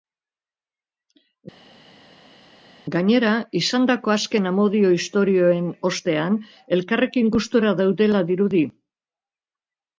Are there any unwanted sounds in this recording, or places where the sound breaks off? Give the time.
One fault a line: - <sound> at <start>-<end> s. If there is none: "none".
none